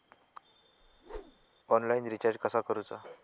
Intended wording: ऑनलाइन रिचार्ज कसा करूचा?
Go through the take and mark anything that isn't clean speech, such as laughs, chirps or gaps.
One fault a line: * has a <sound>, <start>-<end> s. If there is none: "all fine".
* has a whoosh, 0.8-1.5 s